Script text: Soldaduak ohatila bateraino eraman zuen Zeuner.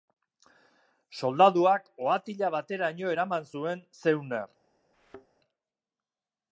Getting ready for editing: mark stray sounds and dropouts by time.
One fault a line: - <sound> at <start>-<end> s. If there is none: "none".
- thud at 4.9-5.3 s